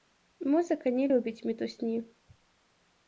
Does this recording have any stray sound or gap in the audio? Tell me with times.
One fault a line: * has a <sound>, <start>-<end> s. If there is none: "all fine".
all fine